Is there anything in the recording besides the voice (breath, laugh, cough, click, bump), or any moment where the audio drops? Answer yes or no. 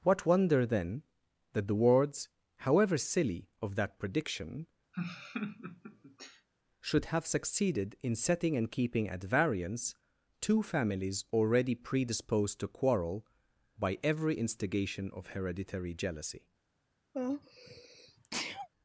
yes